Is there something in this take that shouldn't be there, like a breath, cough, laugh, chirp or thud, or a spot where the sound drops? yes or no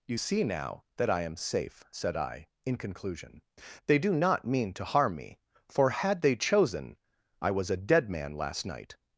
no